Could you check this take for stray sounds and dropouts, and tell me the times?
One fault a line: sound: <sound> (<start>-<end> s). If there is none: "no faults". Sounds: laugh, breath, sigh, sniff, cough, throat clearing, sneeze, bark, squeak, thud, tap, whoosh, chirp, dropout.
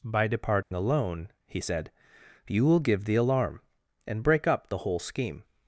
sound: dropout (0.6-0.7 s)